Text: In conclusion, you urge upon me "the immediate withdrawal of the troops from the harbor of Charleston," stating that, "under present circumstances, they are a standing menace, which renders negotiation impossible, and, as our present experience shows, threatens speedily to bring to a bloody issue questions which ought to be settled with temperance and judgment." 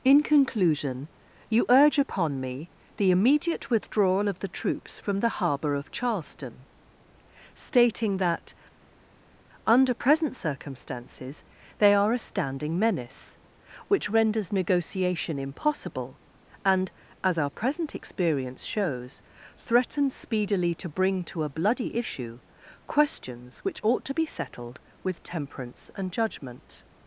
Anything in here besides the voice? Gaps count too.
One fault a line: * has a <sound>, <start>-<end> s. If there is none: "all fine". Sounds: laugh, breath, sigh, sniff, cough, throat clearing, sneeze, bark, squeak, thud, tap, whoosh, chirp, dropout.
all fine